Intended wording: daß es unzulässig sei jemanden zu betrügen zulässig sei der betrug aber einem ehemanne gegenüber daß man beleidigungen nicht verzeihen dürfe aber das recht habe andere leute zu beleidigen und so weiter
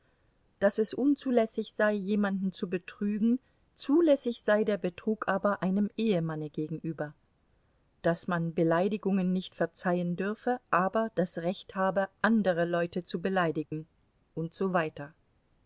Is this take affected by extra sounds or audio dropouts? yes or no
yes